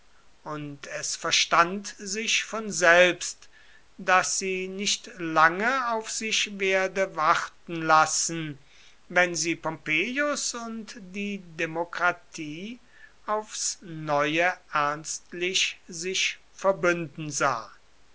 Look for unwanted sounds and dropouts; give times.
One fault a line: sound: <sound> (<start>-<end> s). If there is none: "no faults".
no faults